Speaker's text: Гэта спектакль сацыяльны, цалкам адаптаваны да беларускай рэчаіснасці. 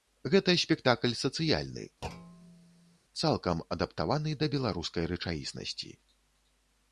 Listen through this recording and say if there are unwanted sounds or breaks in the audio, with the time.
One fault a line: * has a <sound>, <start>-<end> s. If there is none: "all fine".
* has a thud, 2.0-3.0 s